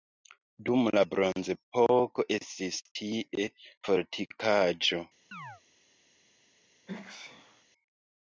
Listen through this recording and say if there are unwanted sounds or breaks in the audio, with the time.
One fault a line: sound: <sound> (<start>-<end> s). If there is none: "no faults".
sound: chirp (5.3-5.6 s)
sound: sneeze (6.9-7.6 s)